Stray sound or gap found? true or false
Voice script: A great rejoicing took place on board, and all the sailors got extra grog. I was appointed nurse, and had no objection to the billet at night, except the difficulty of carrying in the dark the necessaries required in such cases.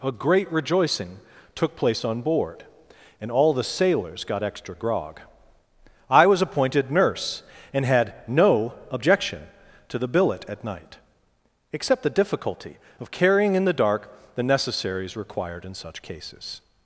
false